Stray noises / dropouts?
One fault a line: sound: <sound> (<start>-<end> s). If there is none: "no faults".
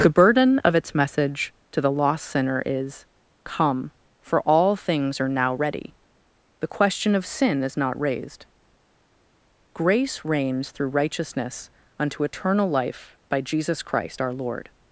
no faults